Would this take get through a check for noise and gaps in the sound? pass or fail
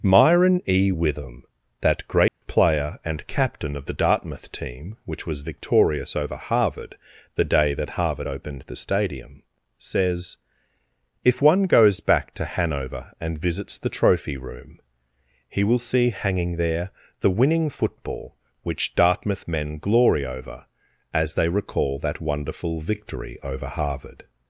fail